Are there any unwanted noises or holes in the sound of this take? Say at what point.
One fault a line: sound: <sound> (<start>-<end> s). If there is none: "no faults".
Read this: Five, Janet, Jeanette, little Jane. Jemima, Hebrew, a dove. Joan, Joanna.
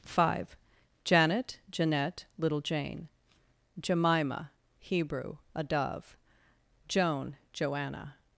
no faults